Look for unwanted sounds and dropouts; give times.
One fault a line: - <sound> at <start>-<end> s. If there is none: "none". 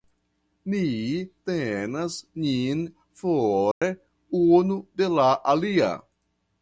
- dropout at 3.7-3.8 s